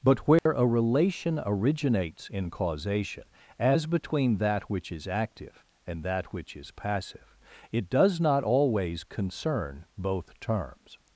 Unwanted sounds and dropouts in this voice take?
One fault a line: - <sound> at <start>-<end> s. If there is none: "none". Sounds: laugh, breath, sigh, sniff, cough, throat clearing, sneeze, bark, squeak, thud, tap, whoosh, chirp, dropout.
- dropout at 0.4-0.5 s